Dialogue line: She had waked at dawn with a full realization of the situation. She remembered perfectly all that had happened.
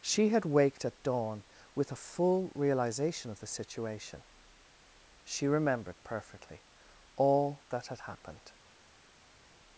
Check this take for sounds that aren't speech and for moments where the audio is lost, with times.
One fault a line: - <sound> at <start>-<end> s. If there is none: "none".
none